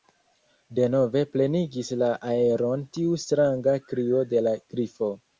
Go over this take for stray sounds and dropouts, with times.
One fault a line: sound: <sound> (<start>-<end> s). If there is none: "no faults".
no faults